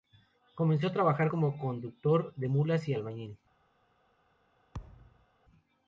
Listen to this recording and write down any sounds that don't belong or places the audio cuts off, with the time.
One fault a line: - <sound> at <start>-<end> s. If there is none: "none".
- thud at 4.7-5.3 s